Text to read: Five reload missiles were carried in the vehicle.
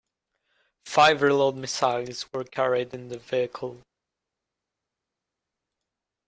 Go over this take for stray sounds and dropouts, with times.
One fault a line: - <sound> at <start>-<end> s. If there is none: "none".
none